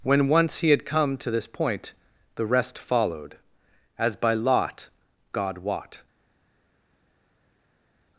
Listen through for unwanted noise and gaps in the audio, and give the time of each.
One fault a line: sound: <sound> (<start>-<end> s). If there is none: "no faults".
no faults